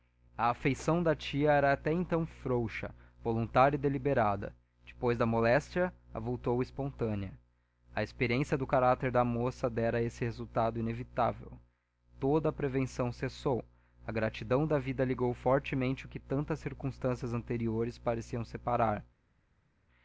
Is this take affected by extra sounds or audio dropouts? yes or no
no